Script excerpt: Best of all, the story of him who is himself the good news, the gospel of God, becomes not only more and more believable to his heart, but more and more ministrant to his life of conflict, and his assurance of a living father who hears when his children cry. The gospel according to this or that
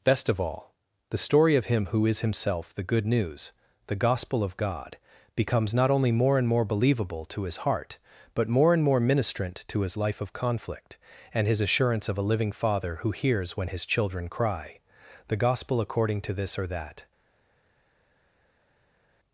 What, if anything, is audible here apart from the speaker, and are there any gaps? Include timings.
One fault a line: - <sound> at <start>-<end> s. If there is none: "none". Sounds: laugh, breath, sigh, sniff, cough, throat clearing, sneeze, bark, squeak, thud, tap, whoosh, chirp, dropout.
none